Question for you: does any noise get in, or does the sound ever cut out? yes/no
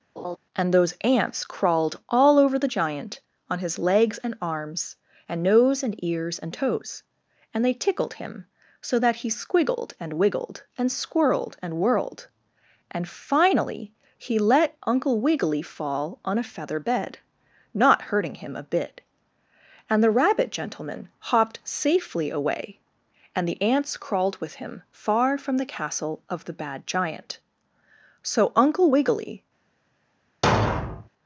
yes